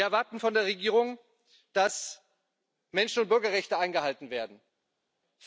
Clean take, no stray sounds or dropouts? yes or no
yes